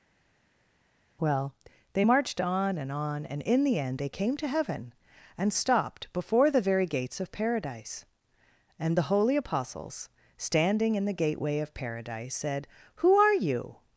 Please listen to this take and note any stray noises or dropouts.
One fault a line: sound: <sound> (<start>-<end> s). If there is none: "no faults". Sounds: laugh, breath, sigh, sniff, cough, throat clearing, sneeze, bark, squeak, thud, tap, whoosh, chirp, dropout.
no faults